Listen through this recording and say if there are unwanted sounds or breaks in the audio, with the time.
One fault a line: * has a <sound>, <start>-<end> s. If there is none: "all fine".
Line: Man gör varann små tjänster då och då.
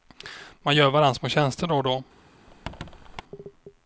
* has a squeak, 2.5-3.2 s